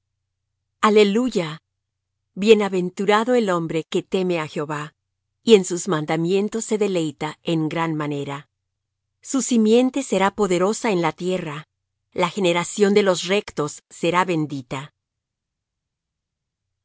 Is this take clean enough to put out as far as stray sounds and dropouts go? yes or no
yes